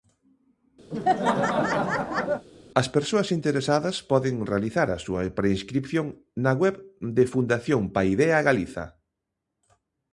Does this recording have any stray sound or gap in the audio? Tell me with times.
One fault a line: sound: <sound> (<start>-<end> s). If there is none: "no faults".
sound: laugh (0.9-2.4 s)